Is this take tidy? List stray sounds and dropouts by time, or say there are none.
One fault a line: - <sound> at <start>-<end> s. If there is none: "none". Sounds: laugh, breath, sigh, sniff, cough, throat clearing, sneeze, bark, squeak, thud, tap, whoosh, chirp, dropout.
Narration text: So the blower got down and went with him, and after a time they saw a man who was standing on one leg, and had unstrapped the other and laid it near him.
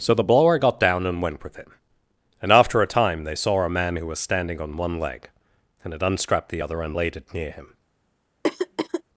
- throat clearing at 8.4-9.0 s